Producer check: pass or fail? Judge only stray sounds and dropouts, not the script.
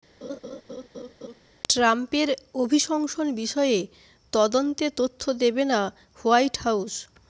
fail